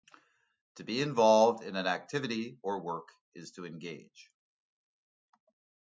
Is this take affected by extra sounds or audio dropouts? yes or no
no